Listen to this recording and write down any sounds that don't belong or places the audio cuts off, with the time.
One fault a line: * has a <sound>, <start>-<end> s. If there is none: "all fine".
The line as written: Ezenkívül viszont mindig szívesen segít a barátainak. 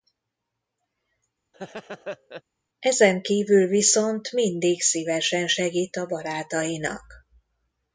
* has a laugh, 1.5-2.4 s